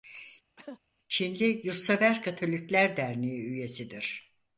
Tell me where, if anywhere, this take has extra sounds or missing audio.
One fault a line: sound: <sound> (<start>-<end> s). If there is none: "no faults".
sound: cough (0.6-0.8 s)